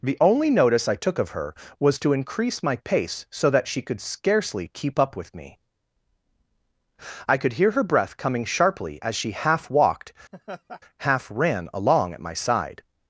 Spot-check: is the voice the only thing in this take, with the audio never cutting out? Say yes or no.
no